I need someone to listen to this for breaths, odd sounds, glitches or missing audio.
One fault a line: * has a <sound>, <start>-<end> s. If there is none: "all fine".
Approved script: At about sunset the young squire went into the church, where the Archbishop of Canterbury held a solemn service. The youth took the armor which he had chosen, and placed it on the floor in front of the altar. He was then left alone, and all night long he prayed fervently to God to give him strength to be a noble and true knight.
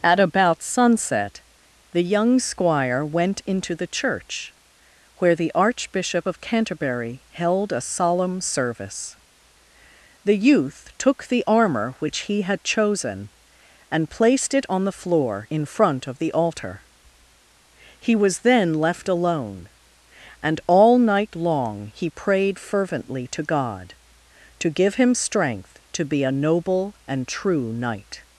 all fine